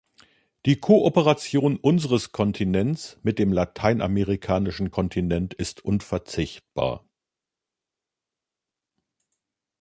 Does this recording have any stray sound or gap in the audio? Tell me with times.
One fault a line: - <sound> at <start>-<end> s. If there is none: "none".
none